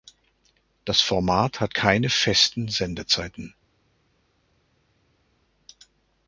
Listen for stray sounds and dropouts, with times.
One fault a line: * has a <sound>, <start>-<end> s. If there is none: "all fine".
all fine